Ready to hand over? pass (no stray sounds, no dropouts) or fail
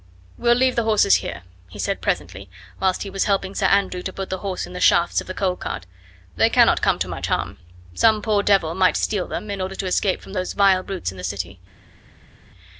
pass